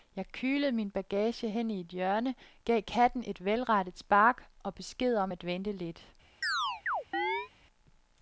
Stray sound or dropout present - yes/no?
yes